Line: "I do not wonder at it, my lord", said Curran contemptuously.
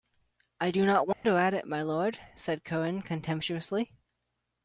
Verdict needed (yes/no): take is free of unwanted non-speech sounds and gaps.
no